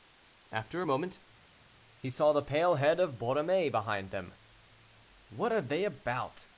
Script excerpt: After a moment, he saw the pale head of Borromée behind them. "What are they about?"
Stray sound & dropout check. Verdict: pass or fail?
pass